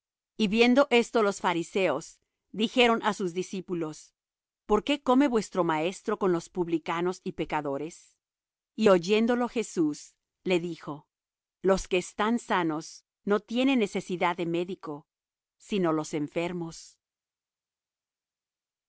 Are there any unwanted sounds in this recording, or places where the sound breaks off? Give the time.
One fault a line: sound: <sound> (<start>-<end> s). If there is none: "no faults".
no faults